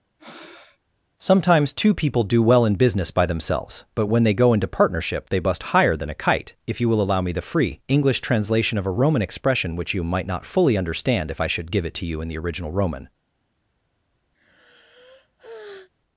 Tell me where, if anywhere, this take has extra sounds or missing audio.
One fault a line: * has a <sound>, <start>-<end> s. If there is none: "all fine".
* has a breath, 0.2-0.8 s
* has a sigh, 14.3-15.9 s